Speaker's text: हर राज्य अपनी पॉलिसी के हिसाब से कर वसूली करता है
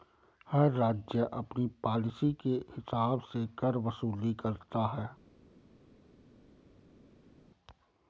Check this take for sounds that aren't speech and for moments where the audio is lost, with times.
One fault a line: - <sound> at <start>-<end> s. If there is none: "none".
none